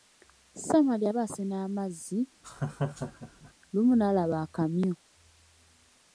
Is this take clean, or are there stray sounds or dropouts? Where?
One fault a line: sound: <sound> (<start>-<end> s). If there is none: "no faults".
sound: laugh (2.4-3.5 s)